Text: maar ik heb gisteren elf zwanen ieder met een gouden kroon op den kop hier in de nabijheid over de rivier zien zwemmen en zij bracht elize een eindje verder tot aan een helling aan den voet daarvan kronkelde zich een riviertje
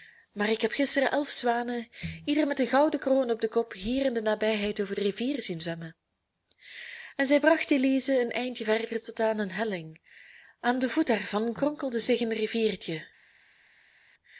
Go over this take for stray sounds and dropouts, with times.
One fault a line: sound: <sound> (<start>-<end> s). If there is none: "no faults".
no faults